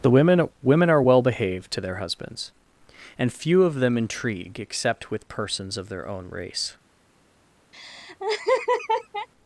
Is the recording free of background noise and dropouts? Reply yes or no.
no